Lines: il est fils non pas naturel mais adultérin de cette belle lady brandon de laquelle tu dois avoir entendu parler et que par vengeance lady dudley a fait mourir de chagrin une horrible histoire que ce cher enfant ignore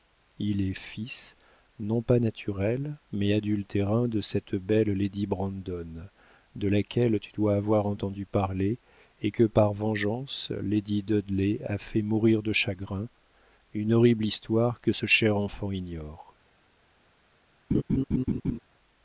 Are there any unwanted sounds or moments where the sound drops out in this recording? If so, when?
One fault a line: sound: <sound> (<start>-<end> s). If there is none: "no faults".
sound: laugh (17.7-18.6 s)